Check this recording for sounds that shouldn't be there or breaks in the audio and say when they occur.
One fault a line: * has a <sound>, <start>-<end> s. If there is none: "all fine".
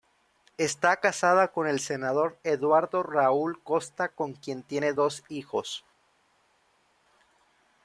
all fine